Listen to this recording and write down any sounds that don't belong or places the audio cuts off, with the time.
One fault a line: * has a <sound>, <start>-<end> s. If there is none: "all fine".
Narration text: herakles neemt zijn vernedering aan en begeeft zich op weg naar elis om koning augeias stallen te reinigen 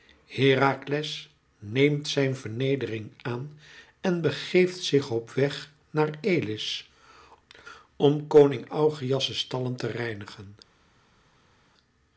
all fine